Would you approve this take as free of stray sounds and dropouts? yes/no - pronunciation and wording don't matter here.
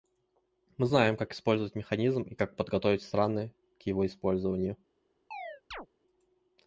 no